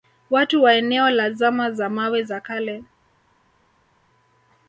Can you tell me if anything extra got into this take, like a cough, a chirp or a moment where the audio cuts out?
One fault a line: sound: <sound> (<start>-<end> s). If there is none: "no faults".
no faults